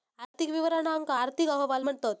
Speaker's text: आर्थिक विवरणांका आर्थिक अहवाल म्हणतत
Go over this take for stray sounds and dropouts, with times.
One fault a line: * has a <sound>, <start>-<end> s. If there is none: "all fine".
all fine